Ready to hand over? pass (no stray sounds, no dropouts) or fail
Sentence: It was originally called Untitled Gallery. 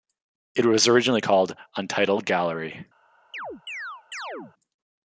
fail